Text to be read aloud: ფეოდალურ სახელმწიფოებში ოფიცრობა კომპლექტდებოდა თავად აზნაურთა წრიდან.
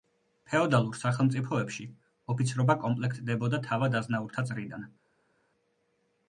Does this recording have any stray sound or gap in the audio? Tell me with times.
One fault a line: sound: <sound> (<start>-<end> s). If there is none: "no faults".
no faults